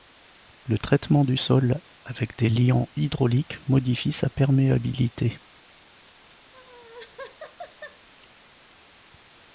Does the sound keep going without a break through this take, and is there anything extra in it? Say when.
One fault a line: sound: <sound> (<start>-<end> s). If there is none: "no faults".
sound: laugh (6.5-8.1 s)